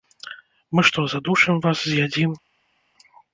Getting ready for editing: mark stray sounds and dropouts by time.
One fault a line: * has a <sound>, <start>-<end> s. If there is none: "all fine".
all fine